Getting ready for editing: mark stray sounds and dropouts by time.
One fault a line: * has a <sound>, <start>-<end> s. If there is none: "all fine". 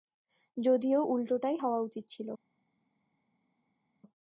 all fine